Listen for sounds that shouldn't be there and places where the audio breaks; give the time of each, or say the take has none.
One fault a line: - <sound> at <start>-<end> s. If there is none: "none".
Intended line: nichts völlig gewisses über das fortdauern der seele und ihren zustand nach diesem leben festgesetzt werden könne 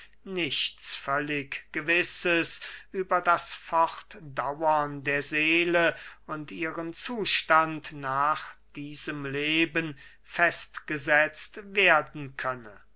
none